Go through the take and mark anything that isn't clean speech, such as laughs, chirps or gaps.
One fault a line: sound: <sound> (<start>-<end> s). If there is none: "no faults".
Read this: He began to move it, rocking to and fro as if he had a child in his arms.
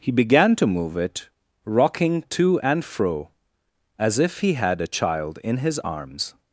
no faults